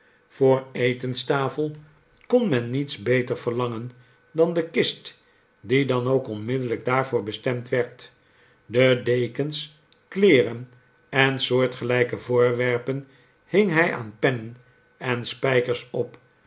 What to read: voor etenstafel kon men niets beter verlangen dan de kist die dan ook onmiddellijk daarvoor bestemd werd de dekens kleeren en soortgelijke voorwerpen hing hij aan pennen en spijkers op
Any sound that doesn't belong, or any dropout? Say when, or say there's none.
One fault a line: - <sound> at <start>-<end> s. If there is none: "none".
none